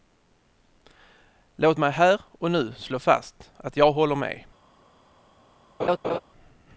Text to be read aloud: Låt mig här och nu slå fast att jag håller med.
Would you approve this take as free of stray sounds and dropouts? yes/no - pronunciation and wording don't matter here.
no